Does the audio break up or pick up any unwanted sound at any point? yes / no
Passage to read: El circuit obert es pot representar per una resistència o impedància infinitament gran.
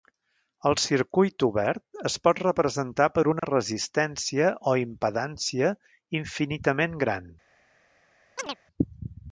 yes